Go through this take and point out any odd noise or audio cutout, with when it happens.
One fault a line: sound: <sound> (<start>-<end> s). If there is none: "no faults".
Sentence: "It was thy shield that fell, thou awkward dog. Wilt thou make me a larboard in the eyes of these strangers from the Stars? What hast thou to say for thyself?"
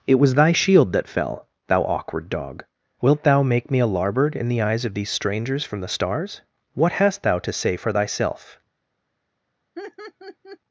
sound: laugh (9.8-10.6 s)